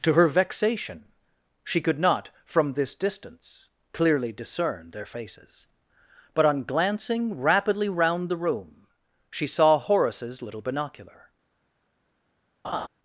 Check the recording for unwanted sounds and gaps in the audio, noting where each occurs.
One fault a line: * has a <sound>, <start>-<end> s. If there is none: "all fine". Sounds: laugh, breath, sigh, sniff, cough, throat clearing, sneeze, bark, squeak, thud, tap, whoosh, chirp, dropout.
* has a laugh, 12.6-12.9 s